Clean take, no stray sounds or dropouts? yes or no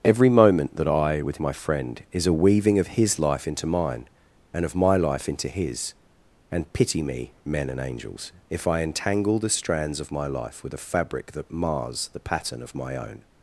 yes